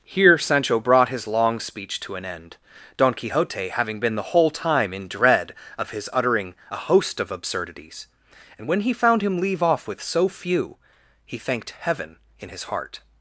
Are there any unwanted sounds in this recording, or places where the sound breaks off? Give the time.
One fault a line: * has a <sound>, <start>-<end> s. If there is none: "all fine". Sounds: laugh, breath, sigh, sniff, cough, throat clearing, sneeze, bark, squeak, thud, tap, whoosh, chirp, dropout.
all fine